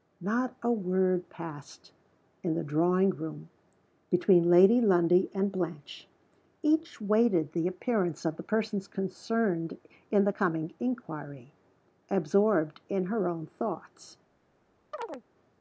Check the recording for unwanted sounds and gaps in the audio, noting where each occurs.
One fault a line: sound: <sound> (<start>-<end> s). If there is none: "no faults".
sound: chirp (14.9-15.2 s)